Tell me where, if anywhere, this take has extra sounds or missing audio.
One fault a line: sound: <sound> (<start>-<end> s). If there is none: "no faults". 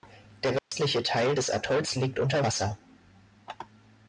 sound: dropout (0.6-0.7 s)